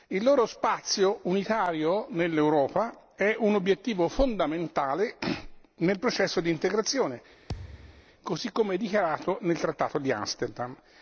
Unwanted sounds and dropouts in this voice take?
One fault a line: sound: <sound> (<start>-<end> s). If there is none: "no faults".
sound: thud (7.5-8.1 s)